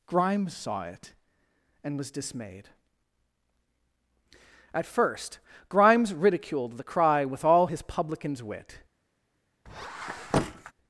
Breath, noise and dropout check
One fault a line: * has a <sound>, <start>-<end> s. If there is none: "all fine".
* has a squeak, 9.7-10.7 s